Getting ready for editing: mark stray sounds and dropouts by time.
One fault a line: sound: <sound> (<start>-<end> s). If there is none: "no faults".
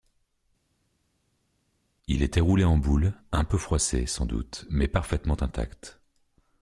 no faults